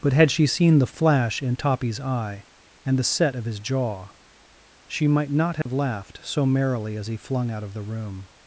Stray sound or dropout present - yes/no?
yes